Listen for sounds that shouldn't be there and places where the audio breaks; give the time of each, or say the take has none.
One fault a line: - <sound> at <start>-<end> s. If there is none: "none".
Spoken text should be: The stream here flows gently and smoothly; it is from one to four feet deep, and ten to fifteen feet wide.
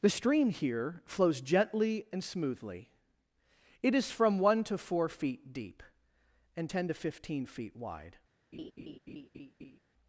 - laugh at 8.5-9.8 s